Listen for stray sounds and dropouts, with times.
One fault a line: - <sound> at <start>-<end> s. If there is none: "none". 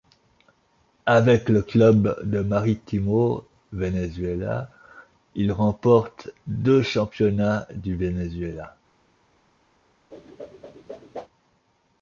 - whoosh at 10.1-11.3 s